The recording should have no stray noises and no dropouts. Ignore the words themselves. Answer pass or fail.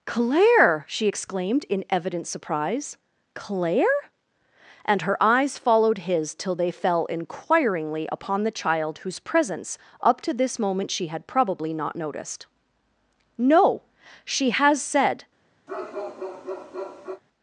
fail